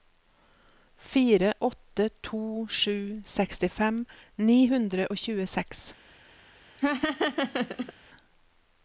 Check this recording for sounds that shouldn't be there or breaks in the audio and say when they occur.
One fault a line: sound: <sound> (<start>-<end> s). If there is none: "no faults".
sound: laugh (6.8-7.9 s)